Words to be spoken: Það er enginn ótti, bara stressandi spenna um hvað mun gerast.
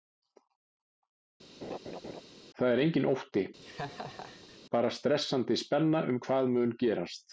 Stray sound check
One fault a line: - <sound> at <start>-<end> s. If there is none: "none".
- laugh at 1.6-2.2 s
- laugh at 3.6-4.6 s